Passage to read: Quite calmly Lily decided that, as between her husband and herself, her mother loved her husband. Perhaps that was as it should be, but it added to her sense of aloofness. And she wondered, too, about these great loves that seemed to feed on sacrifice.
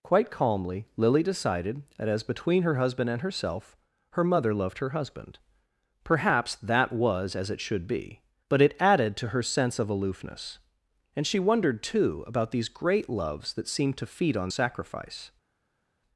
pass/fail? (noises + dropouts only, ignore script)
pass